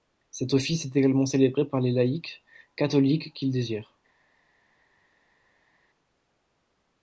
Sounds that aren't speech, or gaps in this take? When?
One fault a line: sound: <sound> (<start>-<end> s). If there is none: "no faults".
no faults